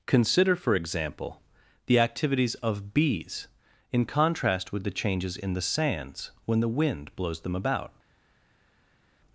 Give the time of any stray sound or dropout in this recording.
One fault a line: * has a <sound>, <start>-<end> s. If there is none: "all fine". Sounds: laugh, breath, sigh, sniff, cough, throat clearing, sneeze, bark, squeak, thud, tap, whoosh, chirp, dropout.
all fine